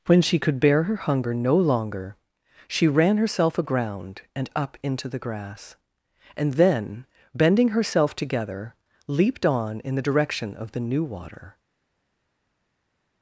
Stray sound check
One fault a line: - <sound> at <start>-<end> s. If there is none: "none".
none